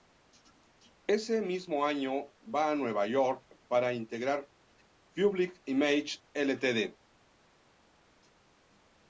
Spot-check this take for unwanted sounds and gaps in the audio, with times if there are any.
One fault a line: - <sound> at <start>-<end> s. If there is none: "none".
none